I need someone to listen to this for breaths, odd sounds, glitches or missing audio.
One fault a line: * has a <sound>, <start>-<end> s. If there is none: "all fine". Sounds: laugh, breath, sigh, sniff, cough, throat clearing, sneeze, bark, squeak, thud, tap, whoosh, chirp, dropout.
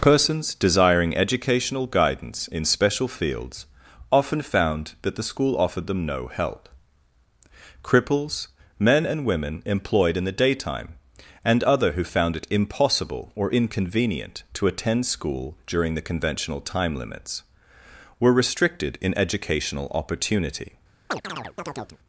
* has a chirp, 21.1-22.0 s